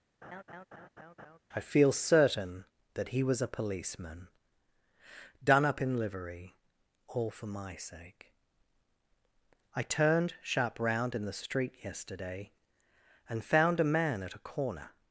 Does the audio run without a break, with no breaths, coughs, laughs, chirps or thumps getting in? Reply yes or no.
no